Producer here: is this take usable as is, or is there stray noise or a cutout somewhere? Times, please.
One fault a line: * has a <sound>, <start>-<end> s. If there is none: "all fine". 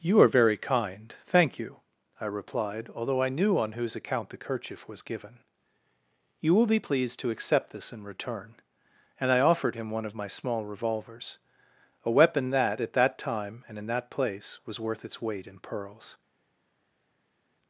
all fine